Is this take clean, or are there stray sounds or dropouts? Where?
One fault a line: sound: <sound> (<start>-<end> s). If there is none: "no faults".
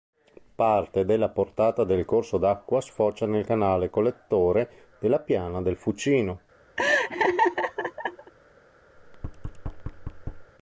sound: laugh (6.8-8.3 s)
sound: thud (9.0-10.5 s)